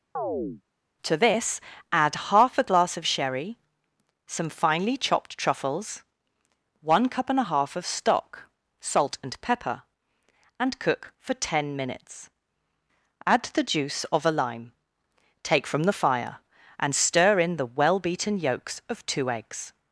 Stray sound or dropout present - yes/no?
yes